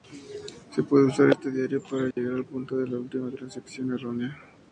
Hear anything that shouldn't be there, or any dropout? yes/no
yes